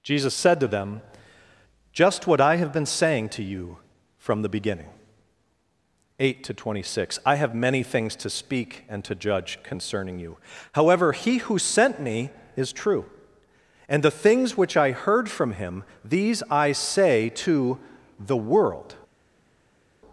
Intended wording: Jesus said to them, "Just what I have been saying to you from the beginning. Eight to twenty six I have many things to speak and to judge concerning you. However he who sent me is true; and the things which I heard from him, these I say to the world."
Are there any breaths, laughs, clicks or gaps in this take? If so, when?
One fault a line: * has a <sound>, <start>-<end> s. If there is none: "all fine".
all fine